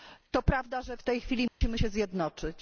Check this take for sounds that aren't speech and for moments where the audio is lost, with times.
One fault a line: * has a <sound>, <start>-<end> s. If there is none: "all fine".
* has a dropout, 1.5-1.6 s